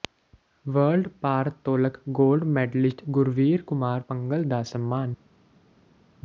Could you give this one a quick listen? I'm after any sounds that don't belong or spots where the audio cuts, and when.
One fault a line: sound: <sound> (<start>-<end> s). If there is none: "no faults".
no faults